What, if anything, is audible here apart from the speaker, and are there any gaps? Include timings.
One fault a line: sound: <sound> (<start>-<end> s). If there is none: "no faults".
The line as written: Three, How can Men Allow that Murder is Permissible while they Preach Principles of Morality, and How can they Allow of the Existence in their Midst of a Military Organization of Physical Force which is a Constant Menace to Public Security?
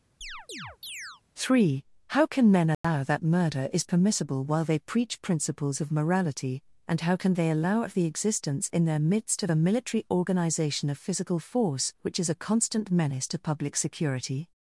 sound: chirp (0.2-1.2 s)
sound: dropout (2.7-2.8 s)